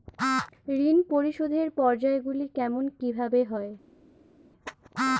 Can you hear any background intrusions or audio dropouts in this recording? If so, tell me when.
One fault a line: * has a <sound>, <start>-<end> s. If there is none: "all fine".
all fine